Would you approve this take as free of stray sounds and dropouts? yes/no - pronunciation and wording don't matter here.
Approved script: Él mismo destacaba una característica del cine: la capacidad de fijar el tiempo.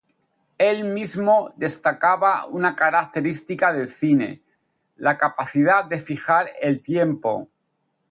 yes